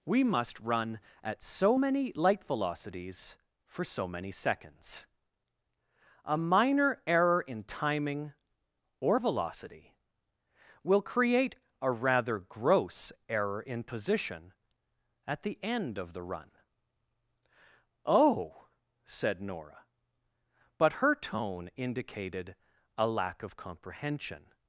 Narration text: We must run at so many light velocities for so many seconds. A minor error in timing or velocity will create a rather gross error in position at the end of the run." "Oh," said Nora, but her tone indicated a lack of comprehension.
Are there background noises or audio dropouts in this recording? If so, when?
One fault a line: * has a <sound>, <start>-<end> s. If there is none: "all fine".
all fine